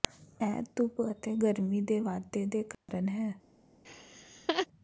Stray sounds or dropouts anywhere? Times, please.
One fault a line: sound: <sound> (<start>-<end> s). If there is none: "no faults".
sound: dropout (2.7-2.9 s)
sound: laugh (3.8-4.7 s)